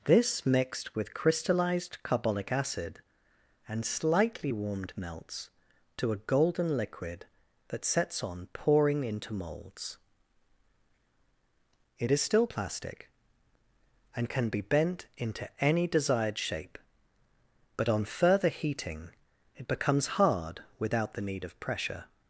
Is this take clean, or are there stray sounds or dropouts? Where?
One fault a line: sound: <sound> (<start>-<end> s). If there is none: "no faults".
no faults